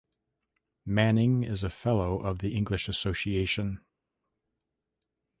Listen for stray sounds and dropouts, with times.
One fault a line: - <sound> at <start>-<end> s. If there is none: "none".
none